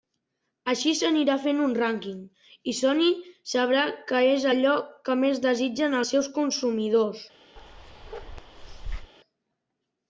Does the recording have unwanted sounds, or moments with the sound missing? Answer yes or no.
yes